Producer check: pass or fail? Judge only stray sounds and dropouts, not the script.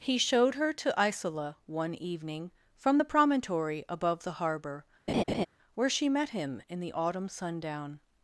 fail